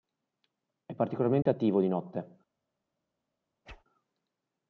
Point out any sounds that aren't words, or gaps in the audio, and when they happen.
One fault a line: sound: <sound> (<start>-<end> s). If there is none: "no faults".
sound: dropout (1.4-1.5 s)
sound: whoosh (3.7-3.8 s)